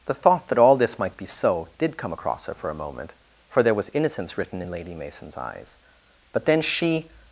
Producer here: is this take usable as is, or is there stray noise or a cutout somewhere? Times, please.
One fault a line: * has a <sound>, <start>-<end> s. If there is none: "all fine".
all fine